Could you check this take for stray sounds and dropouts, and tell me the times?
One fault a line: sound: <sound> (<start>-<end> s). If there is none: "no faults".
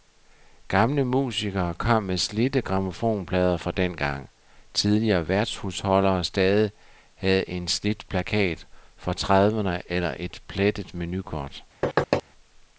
sound: thud (11.8-12.2 s)